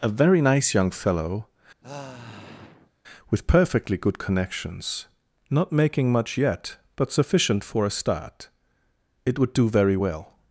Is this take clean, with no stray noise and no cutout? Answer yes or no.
no